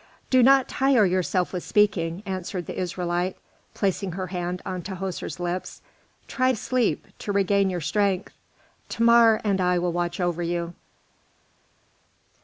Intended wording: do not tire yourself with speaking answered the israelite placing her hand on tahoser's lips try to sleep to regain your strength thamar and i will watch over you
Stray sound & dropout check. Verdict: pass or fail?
pass